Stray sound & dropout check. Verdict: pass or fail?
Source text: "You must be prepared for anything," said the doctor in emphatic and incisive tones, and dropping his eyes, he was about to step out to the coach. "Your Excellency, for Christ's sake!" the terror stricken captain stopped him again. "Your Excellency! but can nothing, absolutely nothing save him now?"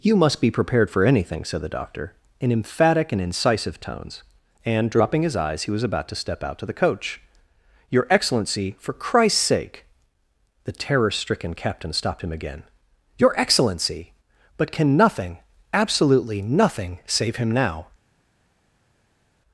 pass